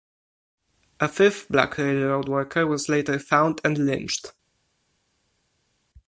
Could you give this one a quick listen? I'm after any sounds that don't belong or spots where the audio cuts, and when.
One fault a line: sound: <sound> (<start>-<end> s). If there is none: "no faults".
no faults